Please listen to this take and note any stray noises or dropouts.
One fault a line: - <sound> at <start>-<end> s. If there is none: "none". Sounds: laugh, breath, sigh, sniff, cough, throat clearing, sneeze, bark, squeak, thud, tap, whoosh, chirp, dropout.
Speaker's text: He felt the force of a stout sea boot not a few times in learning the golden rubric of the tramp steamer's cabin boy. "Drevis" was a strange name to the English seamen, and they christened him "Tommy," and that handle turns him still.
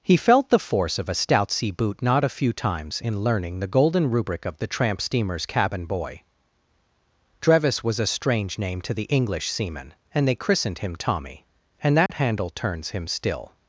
- dropout at 12.1-12.1 s